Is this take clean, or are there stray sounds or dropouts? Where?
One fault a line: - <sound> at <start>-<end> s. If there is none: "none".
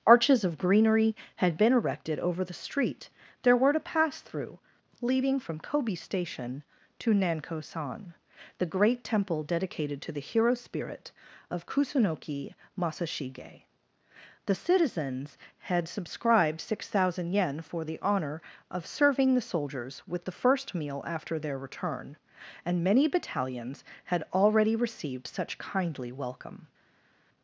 none